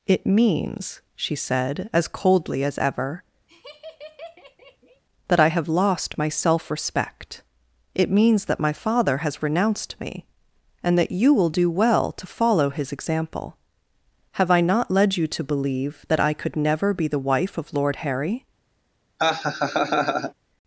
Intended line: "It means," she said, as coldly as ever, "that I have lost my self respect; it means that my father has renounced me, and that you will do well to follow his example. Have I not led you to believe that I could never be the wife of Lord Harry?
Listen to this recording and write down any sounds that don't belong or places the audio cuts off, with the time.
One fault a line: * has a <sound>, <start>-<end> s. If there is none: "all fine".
* has a laugh, 3.5-5.0 s
* has a laugh, 19.2-20.3 s